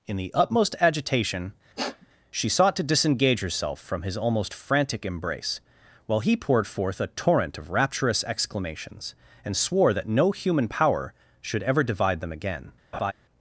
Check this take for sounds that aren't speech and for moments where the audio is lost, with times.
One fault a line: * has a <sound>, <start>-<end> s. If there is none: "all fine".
* has a sniff, 1.8-2.1 s
* has a laugh, 12.9-13.1 s